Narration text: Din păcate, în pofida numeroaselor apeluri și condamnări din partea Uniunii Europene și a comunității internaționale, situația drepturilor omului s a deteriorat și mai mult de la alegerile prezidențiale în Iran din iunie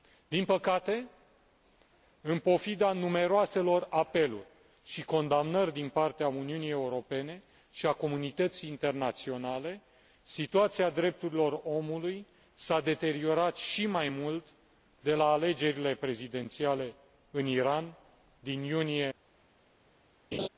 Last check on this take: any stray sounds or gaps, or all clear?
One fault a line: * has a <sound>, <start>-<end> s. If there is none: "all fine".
* has a laugh, 20.3-20.5 s